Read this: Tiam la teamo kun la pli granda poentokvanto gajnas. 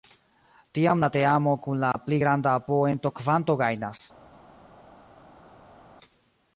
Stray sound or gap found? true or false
false